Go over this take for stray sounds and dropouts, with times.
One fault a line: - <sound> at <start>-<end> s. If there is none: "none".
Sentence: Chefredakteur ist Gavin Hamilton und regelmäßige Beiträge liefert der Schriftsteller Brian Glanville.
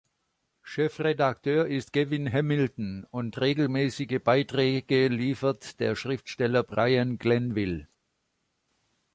none